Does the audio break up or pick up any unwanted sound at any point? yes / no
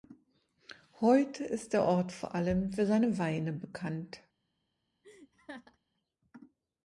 yes